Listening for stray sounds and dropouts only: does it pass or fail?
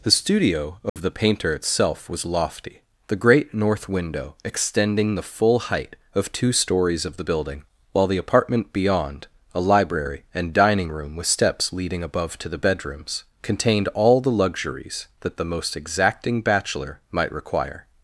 fail